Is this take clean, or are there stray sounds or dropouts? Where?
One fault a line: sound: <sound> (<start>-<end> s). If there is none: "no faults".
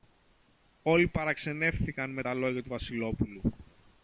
no faults